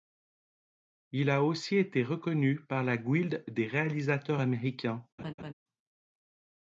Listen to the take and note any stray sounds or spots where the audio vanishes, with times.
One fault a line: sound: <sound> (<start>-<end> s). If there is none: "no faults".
sound: laugh (5.2-5.5 s)